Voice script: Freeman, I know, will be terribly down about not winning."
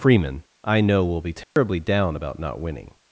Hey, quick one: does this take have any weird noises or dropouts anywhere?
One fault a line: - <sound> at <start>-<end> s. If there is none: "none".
- dropout at 1.4-1.6 s